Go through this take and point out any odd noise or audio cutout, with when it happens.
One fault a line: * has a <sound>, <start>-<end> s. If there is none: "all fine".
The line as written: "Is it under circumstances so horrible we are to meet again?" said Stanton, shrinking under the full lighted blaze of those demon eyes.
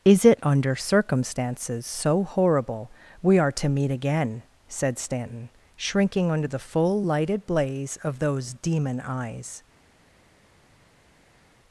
all fine